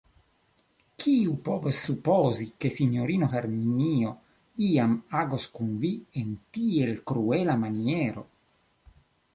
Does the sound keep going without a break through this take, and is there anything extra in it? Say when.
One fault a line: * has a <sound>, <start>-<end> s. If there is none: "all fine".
all fine